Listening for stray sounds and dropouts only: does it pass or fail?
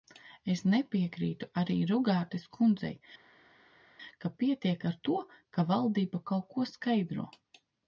pass